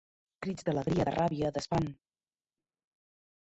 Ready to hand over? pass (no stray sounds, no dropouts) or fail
pass